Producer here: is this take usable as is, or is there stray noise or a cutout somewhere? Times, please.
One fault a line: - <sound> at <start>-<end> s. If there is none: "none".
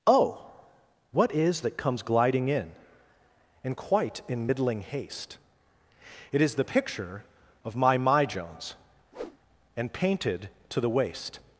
- whoosh at 9.1-9.4 s